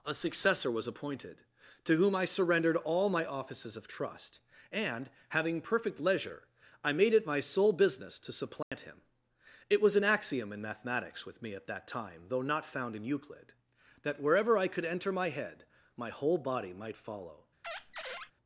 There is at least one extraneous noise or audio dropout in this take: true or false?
true